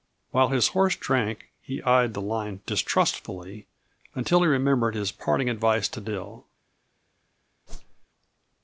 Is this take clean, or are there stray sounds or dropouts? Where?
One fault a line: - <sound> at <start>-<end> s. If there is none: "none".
- whoosh at 7.7-8.1 s